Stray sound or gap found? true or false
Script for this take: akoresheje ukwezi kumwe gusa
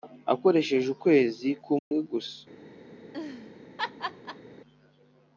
true